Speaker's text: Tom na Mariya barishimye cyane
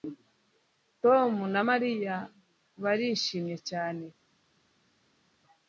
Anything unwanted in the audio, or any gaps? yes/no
no